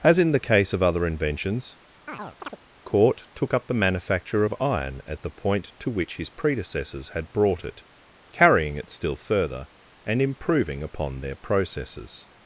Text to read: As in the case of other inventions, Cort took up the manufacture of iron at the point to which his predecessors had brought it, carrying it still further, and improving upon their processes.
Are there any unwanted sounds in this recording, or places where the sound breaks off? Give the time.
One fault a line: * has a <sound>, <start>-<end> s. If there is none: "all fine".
* has a chirp, 2.1-2.6 s